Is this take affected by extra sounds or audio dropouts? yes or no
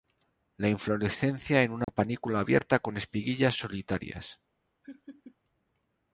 yes